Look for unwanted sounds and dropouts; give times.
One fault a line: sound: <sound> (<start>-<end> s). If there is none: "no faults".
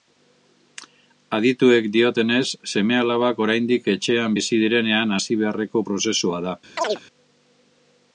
sound: chirp (6.8-7.0 s)